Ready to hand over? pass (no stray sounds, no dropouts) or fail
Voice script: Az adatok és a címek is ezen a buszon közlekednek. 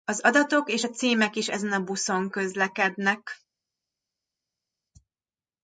pass